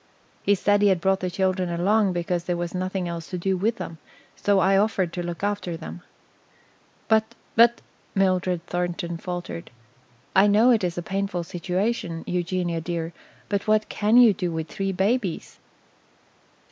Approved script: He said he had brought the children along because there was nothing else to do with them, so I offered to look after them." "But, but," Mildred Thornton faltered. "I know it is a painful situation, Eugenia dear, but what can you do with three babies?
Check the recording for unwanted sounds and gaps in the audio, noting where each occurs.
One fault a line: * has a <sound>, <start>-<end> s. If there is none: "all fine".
all fine